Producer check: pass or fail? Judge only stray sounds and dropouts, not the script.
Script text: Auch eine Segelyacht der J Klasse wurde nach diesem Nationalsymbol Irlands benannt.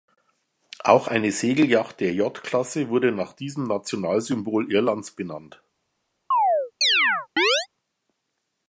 fail